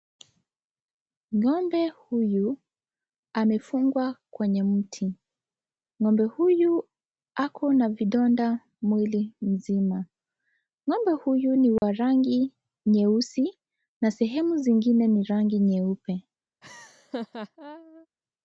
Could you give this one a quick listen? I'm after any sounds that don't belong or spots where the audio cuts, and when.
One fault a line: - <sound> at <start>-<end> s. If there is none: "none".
- dropout at 11.8-11.8 s
- laugh at 16.6-18.1 s